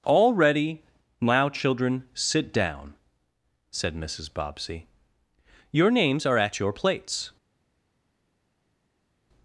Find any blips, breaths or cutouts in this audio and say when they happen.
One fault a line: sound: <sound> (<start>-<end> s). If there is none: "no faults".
no faults